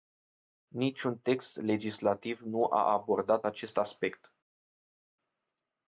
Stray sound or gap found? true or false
false